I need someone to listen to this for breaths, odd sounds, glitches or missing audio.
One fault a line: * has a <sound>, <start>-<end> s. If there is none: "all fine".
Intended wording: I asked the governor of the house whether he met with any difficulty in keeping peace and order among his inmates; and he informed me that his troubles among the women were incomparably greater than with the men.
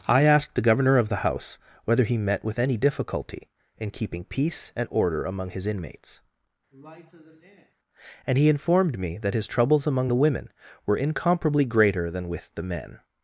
* has a sigh, 6.7-7.8 s